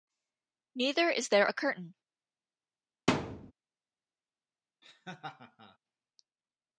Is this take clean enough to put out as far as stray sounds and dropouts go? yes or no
no